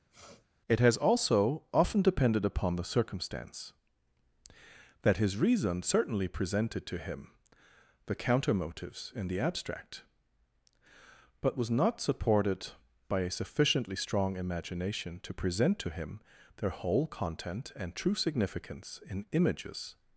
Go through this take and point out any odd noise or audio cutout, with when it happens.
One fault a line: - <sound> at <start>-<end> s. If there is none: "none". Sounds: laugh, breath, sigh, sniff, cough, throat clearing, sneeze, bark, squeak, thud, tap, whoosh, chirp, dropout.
- sniff at 0.1-0.5 s